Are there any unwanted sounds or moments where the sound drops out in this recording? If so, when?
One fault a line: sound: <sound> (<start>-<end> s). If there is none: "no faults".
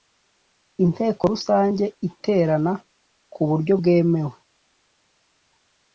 no faults